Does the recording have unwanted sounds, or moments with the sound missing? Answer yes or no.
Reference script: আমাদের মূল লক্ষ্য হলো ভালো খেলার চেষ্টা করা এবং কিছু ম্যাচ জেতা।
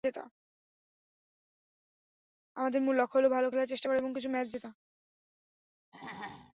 yes